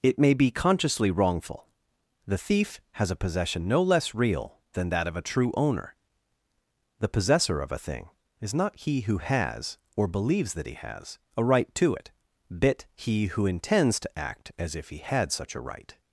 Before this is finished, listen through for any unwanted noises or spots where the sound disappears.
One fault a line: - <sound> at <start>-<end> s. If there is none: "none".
none